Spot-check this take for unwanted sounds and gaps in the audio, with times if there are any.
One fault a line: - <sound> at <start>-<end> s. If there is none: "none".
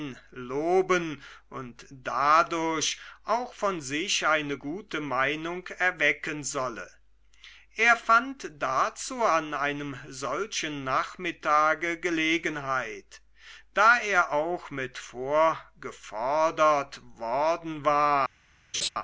- laugh at 18.7-18.9 s